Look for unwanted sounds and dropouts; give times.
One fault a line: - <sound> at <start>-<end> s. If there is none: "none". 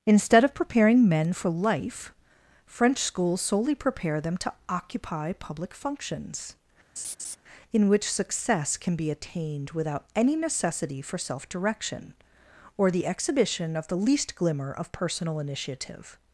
- laugh at 7.0-7.4 s